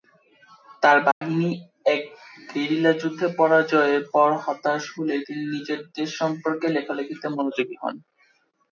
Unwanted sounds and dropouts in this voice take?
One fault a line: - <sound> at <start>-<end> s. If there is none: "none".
- dropout at 1.1-1.2 s